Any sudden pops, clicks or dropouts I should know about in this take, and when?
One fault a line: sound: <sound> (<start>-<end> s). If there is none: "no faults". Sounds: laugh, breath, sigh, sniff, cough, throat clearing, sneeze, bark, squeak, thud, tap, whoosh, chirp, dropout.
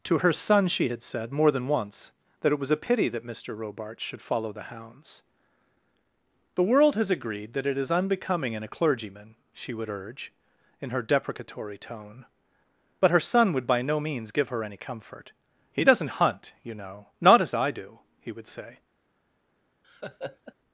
sound: laugh (19.8-20.5 s)